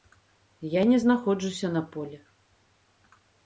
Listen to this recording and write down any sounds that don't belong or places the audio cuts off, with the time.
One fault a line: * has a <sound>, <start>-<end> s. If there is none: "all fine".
all fine